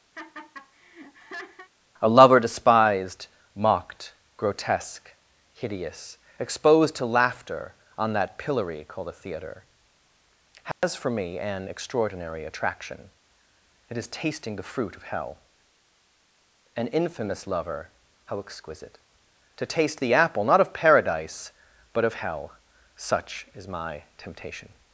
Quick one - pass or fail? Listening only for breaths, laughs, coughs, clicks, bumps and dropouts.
fail